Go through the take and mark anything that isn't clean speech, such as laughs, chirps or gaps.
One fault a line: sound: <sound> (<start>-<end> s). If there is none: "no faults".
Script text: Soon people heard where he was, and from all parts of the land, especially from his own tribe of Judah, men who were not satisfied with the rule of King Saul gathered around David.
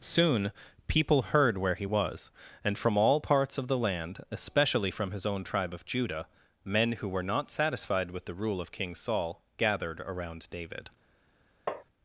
sound: tap (11.7-11.8 s)